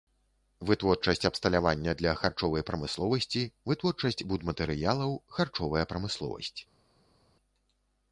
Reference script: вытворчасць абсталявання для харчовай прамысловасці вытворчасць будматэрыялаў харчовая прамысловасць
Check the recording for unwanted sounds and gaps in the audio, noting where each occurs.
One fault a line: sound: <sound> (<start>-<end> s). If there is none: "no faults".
no faults